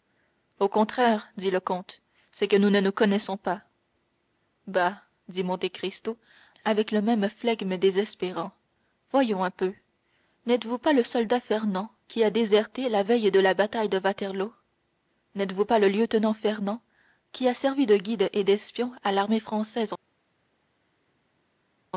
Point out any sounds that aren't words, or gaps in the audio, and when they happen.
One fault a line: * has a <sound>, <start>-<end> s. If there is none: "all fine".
all fine